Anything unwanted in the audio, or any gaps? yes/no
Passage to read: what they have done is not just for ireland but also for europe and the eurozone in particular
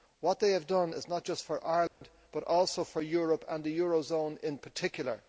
yes